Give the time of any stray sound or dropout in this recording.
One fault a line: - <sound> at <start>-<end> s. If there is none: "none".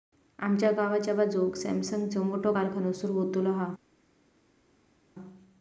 none